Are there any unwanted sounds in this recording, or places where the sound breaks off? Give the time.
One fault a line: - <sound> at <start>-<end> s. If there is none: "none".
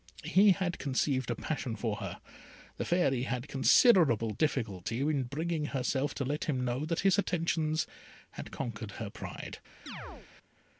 - chirp at 9.9-10.3 s